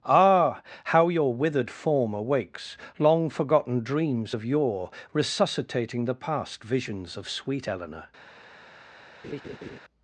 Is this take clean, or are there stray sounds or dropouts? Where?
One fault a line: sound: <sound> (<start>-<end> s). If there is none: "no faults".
sound: laugh (9.2-9.8 s)